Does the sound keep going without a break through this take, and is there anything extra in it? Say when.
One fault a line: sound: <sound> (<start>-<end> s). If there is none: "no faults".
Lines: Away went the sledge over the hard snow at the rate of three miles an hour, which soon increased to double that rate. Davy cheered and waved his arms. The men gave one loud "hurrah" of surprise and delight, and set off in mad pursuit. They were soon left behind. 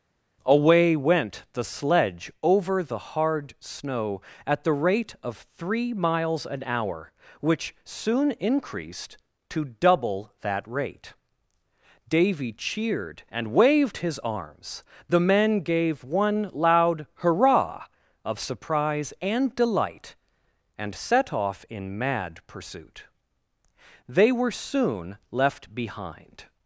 no faults